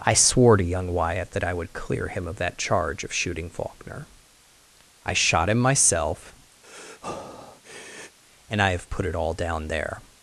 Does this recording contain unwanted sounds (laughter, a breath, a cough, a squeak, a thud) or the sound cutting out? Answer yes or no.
yes